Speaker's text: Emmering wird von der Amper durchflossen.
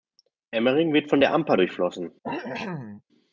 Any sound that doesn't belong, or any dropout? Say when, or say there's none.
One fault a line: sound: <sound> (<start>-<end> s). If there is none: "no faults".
sound: cough (2.2-3.0 s)